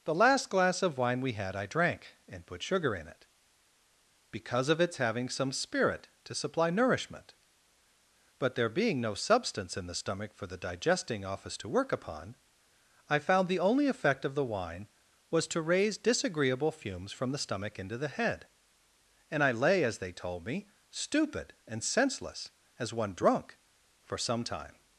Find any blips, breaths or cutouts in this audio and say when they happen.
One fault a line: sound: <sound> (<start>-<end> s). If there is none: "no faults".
no faults